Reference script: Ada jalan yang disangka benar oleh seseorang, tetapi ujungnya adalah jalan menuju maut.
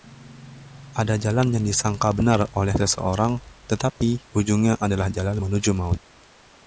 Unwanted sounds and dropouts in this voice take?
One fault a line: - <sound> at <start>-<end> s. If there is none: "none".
- dropout at 3.9-4.0 s